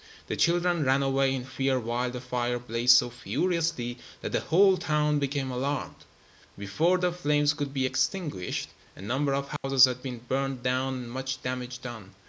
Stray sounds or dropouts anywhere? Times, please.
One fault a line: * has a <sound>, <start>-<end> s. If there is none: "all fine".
* has a dropout, 9.6-9.6 s